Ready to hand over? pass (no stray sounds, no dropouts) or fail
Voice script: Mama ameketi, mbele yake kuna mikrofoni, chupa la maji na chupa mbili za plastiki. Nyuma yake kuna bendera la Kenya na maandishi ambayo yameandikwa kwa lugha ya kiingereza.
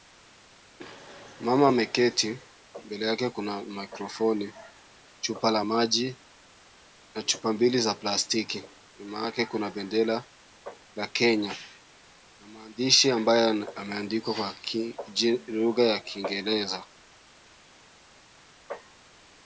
pass